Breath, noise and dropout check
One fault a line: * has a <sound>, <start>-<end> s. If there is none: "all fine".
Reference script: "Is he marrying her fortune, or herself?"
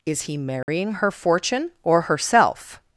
* has a dropout, 0.6-0.7 s